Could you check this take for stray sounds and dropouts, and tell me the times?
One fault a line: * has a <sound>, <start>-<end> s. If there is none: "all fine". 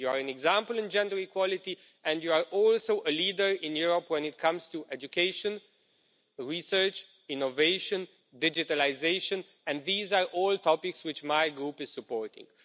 all fine